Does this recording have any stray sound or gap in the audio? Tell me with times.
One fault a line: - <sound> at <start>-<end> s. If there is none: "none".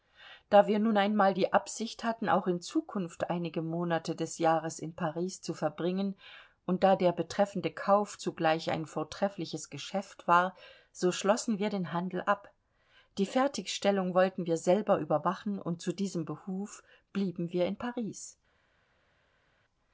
none